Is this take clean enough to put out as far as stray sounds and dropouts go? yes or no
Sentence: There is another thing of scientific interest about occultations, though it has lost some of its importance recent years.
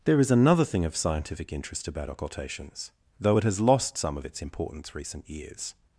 yes